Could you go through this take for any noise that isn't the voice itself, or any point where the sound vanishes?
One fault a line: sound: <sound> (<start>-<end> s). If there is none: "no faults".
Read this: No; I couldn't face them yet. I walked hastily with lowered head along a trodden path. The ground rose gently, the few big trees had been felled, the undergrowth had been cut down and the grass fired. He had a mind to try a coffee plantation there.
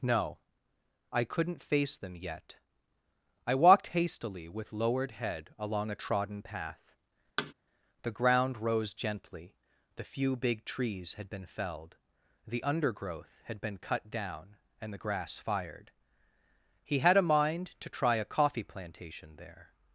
sound: thud (7.4-7.5 s)